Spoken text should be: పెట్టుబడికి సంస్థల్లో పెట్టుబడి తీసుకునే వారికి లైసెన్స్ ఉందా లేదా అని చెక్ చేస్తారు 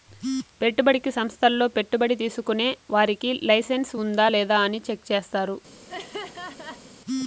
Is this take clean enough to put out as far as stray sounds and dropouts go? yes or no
no